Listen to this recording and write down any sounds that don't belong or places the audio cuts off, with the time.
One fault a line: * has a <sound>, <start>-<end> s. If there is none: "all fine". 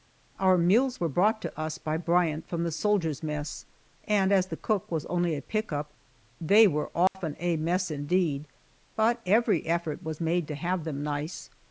* has a dropout, 7.1-7.1 s